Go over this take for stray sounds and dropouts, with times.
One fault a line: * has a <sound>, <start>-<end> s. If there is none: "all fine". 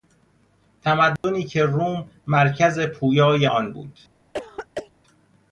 * has a dropout, 1.2-1.2 s
* has a throat clearing, 4.3-4.9 s